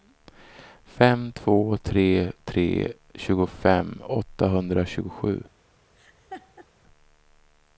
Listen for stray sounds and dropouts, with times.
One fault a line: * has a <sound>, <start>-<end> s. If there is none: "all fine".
* has a laugh, 6.0-6.7 s